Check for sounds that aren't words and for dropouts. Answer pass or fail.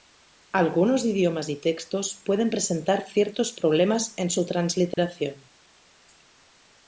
fail